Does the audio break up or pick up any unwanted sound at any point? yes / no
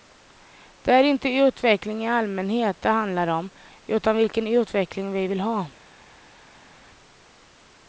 no